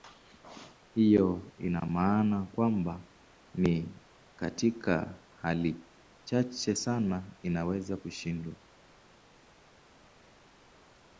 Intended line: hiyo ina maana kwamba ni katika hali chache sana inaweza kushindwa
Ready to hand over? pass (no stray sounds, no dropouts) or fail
pass